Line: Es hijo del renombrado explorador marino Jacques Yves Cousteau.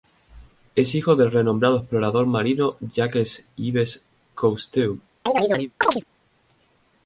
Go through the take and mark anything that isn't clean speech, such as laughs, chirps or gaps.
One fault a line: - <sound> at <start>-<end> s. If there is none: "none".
- chirp at 5.3-6.0 s